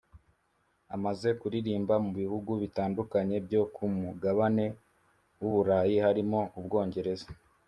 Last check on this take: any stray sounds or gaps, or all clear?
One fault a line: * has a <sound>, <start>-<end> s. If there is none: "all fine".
all fine